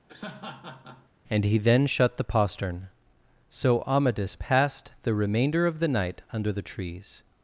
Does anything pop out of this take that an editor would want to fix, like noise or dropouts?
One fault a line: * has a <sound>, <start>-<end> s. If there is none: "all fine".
* has a laugh, 0.1-1.1 s